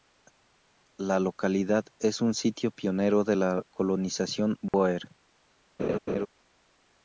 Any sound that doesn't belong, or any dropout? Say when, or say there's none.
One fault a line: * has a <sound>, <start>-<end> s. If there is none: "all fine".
* has a dropout, 4.7-4.7 s
* has a laugh, 5.8-6.3 s